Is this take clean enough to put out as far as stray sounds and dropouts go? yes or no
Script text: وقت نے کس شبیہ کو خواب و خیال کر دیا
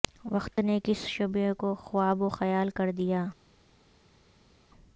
yes